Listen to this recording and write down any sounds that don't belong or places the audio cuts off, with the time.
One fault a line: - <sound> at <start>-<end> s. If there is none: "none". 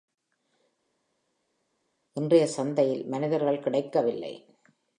none